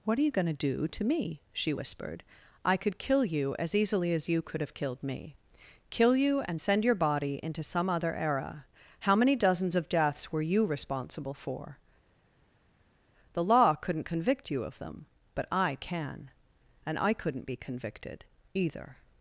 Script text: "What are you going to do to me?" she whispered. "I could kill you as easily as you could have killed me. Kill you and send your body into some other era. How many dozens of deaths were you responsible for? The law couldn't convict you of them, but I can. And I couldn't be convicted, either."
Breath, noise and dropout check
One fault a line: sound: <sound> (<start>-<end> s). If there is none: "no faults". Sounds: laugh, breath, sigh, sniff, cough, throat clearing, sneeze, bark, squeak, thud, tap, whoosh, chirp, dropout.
no faults